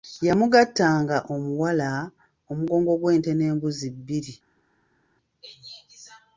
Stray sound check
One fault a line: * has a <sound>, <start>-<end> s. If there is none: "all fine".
all fine